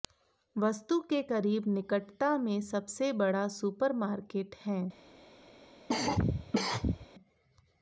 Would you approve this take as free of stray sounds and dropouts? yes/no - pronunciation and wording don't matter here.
no